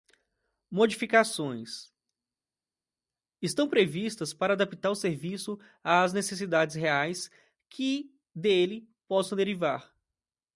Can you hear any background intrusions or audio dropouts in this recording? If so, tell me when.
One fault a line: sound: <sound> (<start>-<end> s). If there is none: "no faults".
no faults